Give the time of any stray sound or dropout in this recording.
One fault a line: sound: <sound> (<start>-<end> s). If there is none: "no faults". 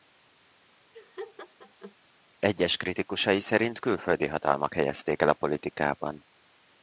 sound: laugh (0.9-2.0 s)